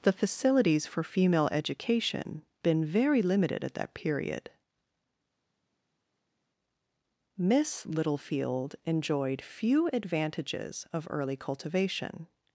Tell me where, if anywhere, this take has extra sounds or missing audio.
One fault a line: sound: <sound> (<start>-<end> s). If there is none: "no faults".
no faults